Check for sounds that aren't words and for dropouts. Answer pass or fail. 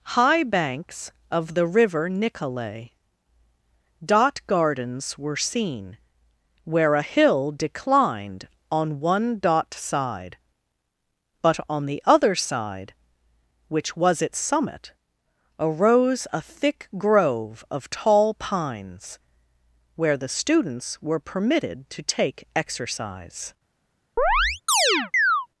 fail